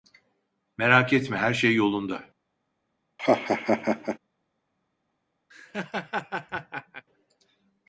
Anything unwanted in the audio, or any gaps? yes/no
yes